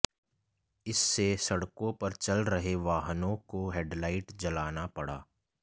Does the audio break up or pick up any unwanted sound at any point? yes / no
no